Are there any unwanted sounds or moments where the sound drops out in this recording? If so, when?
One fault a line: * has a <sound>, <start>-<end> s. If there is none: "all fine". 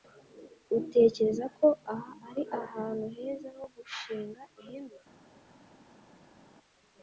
all fine